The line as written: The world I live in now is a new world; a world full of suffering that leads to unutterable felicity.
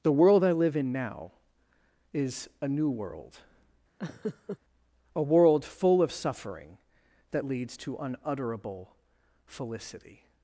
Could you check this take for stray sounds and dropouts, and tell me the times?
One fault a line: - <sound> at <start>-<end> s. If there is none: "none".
- laugh at 4.0-4.6 s